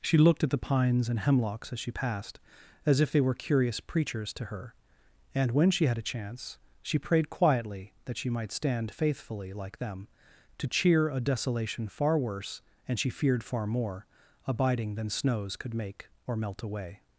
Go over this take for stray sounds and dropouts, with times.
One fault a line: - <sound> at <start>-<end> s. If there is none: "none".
none